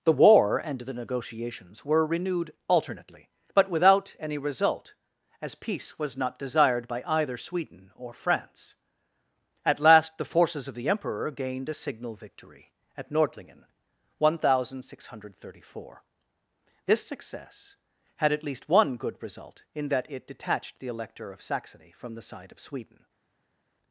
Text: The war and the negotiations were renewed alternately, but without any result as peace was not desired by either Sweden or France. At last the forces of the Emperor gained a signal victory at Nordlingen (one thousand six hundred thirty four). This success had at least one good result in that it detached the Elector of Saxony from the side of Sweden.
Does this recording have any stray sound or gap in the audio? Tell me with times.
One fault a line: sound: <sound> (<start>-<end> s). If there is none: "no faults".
no faults